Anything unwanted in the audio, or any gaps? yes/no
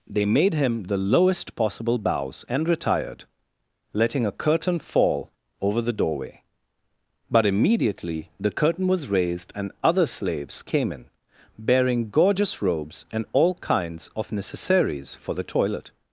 no